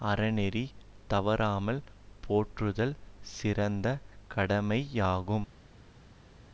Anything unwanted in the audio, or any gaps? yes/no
no